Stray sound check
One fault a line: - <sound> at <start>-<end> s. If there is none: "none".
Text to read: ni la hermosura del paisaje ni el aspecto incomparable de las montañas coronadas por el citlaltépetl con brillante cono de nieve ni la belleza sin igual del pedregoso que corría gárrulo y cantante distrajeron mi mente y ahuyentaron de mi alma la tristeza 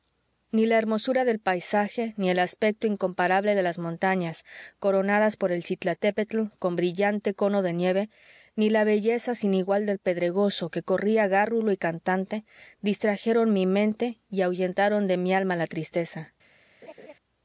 - laugh at 16.8-17.1 s